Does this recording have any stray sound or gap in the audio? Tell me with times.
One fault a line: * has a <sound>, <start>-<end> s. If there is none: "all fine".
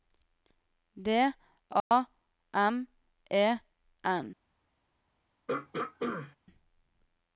* has a dropout, 1.8-1.9 s
* has a throat clearing, 5.5-6.4 s